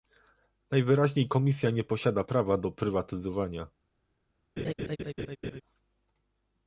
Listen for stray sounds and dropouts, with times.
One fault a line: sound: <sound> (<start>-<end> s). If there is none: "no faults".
sound: laugh (4.6-5.6 s)